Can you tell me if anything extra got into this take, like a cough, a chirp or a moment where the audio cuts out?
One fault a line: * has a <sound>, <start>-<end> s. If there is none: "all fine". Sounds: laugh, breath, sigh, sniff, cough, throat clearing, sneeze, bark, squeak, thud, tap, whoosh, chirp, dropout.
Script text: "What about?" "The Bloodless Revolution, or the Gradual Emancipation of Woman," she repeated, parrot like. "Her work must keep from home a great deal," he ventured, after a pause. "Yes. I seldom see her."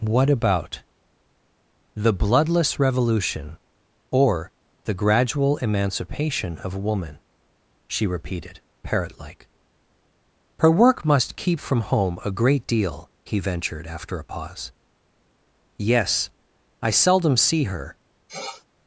* has a sniff, 18.3-18.6 s